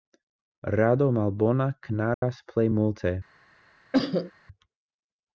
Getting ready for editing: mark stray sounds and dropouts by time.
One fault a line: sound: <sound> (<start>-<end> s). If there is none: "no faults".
sound: dropout (2.1-2.2 s)
sound: cough (3.9-4.3 s)